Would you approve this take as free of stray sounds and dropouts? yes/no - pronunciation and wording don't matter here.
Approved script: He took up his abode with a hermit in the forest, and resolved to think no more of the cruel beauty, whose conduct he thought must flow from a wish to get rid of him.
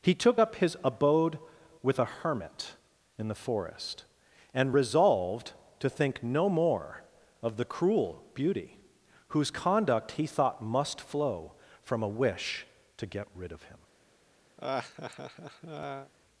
no